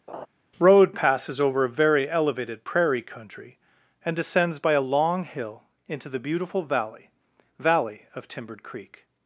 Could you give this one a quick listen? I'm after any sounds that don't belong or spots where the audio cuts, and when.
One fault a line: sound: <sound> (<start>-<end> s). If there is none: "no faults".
sound: laugh (0.1-0.3 s)